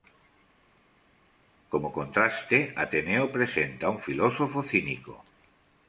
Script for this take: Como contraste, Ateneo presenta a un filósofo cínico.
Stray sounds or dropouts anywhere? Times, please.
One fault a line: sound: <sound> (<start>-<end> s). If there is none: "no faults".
no faults